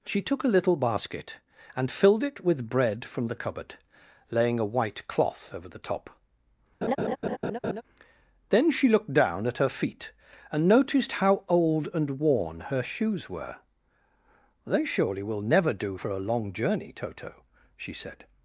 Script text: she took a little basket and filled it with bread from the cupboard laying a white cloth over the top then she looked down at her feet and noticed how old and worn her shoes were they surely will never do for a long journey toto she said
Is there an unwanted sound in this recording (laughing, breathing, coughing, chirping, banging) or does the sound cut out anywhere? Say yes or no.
yes